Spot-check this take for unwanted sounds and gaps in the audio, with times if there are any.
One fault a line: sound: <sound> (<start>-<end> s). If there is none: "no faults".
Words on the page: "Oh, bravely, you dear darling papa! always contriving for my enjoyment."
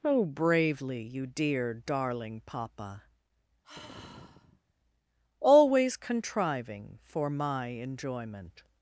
sound: sigh (3.6-4.7 s)